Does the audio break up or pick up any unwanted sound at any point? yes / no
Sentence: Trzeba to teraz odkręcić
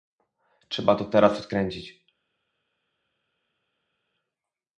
no